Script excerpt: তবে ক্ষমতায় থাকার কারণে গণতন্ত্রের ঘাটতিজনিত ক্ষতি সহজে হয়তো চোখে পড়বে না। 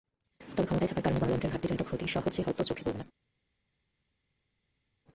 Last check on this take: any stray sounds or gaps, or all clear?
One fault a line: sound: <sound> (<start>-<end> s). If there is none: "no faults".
no faults